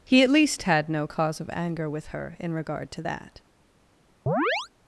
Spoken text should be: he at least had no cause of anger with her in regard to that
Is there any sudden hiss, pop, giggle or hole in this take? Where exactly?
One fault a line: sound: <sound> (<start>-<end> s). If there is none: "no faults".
sound: chirp (4.3-4.7 s)